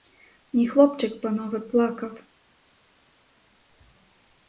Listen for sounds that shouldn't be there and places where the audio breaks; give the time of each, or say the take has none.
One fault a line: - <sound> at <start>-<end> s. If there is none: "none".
none